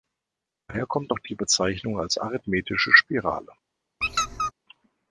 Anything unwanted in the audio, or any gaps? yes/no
yes